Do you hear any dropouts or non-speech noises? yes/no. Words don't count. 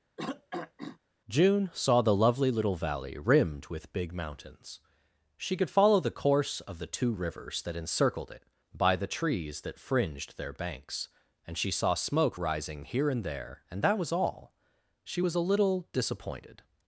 yes